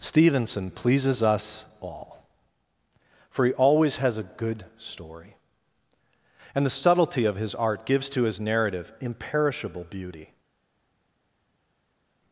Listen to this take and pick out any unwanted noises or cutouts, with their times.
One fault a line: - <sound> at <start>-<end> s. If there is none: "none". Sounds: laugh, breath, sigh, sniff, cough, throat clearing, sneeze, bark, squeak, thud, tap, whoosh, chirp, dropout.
none